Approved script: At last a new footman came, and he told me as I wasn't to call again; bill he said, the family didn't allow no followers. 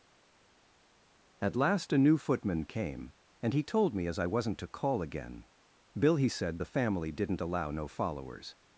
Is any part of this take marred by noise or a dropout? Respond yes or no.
no